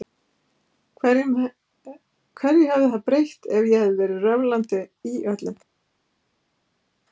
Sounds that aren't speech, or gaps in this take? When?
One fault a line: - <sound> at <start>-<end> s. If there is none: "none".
none